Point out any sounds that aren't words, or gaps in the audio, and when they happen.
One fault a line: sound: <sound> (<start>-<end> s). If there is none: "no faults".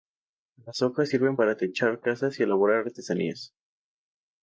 no faults